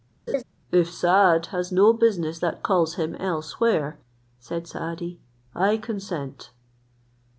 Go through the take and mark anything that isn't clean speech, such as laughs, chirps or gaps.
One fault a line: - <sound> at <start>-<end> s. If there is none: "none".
- laugh at 0.3-0.4 s